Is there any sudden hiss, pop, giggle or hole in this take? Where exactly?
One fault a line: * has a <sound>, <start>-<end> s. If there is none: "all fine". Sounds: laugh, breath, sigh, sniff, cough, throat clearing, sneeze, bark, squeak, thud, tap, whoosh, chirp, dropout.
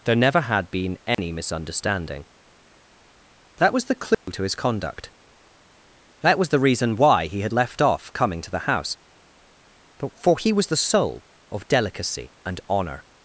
* has a dropout, 1.1-1.2 s
* has a dropout, 4.1-4.3 s